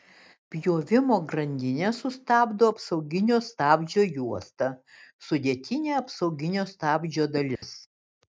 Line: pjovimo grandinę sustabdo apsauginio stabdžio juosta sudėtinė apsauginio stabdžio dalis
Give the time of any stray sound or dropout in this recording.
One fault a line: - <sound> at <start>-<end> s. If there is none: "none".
- dropout at 7.6-7.6 s